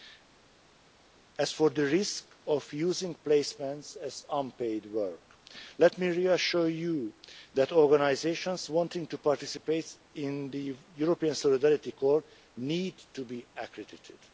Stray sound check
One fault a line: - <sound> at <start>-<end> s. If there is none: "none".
none